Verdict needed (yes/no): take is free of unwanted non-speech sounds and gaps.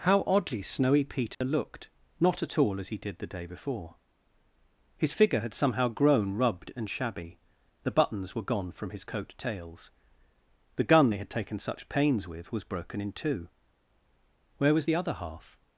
no